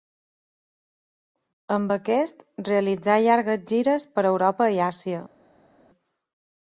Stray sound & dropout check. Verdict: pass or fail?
pass